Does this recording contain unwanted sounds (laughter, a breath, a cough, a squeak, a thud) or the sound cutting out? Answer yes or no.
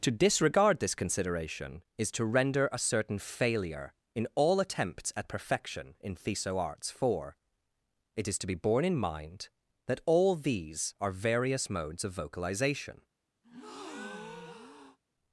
yes